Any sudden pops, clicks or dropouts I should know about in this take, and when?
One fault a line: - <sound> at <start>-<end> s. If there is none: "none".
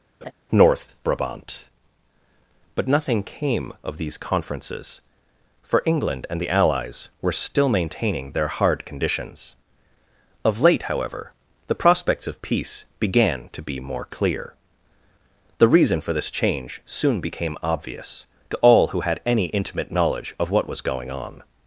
- laugh at 0.2-0.3 s